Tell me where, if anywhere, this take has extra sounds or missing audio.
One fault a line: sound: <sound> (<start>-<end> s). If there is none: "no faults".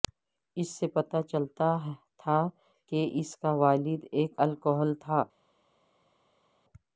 no faults